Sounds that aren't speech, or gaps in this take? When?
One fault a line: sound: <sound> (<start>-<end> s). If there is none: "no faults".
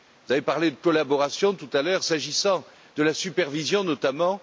no faults